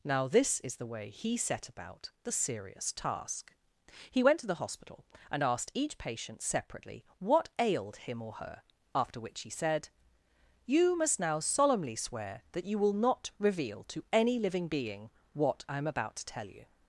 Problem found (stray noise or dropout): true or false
false